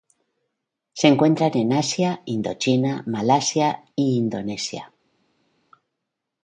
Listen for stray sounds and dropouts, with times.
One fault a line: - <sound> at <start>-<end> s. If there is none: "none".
none